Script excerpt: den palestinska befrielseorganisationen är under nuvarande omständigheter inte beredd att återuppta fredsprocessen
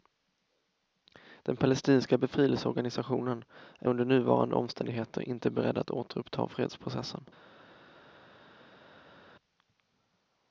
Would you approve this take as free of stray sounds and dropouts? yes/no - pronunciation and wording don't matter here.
yes